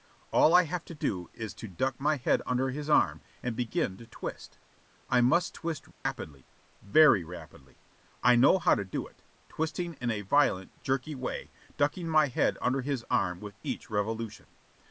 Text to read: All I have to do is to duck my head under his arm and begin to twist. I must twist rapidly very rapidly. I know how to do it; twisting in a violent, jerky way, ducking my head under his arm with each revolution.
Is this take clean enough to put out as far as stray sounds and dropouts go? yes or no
no